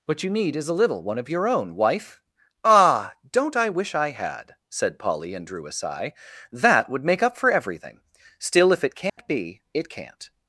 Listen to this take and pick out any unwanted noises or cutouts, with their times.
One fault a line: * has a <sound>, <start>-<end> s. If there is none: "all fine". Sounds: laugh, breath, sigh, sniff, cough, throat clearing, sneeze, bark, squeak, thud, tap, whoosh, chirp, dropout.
* has a dropout, 9.1-9.2 s